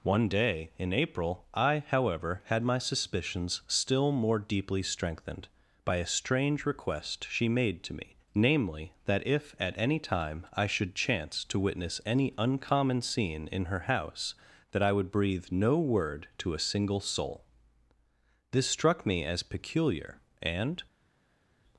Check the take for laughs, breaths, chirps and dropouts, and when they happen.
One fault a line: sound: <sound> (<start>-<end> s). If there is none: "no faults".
no faults